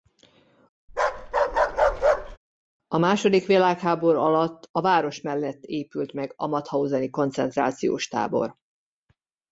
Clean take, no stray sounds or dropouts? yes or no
no